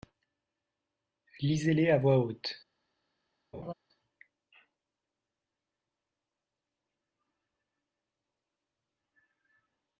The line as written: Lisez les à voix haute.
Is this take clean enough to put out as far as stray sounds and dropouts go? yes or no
no